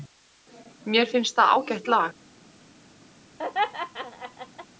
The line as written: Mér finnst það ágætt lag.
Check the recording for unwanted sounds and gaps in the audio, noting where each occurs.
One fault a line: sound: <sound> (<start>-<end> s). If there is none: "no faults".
sound: laugh (3.4-4.7 s)